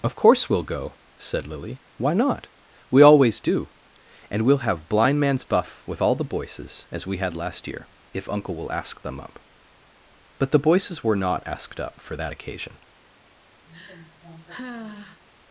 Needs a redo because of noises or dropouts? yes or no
yes